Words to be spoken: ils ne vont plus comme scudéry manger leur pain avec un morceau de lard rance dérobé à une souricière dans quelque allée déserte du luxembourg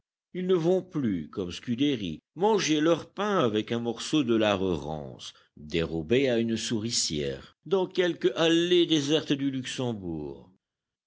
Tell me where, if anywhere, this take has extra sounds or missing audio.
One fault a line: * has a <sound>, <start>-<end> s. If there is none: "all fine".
all fine